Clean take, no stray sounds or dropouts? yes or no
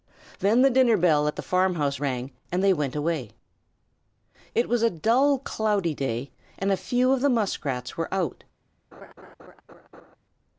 no